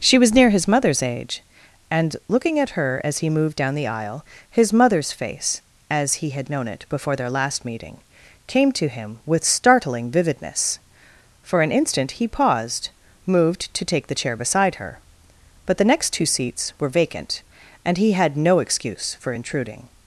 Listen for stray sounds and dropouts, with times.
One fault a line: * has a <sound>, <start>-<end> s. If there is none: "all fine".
all fine